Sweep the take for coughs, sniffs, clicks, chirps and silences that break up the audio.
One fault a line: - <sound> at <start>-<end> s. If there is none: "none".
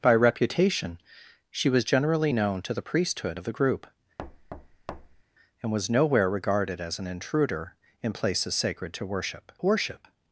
- thud at 4.2-5.2 s